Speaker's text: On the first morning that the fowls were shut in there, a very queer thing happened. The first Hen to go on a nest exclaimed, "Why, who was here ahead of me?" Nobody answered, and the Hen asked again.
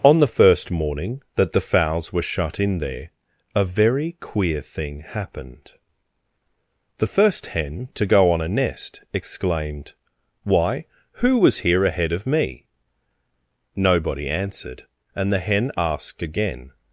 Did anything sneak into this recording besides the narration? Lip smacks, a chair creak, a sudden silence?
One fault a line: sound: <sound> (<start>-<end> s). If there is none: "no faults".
no faults